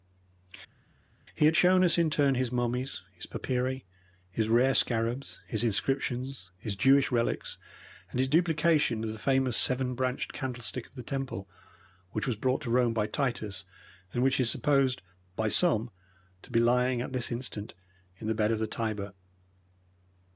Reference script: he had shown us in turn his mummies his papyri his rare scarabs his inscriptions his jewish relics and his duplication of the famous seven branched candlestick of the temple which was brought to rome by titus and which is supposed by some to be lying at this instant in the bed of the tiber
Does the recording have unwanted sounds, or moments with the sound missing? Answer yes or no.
no